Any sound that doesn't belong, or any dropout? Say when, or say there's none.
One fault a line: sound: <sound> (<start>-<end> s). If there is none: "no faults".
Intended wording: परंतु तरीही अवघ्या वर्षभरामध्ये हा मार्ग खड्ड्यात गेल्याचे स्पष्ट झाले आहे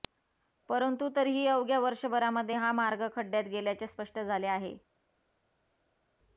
no faults